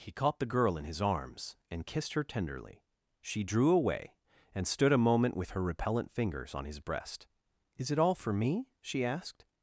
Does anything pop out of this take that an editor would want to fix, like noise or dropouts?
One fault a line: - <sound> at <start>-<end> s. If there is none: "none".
none